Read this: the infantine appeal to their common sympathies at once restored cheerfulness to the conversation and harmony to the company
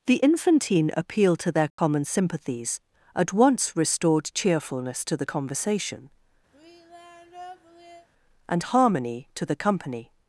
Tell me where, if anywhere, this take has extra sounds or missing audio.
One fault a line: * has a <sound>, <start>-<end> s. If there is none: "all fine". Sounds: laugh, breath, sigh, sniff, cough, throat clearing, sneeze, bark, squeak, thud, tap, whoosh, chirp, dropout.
* has a dropout, 1.7-1.8 s
* has a sigh, 6.5-8.1 s